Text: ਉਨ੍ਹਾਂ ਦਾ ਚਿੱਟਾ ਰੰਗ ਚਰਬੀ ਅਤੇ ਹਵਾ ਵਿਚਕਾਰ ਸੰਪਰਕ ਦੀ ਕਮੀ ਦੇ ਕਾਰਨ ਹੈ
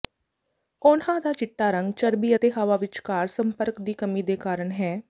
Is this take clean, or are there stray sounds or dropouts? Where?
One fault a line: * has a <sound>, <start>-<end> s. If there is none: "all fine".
all fine